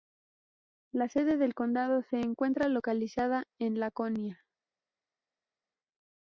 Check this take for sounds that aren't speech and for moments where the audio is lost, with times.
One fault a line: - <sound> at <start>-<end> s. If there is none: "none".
none